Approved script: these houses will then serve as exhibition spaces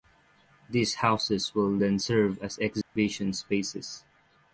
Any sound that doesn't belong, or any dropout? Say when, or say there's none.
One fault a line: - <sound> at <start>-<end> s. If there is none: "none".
- dropout at 2.8-3.0 s